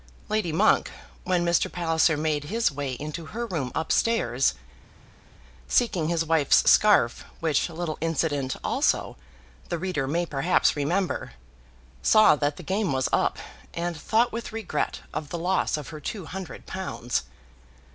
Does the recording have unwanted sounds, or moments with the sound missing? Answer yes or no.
no